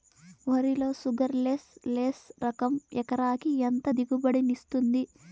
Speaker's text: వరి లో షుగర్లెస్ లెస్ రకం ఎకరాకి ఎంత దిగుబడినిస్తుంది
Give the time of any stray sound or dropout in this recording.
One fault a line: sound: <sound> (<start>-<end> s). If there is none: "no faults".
no faults